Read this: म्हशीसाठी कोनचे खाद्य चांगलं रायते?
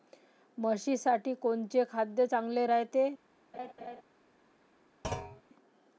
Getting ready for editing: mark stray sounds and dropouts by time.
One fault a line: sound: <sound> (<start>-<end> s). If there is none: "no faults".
sound: laugh (3.5-4.0 s)
sound: thud (5.0-5.4 s)